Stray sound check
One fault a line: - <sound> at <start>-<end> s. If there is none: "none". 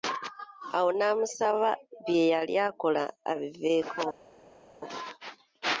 none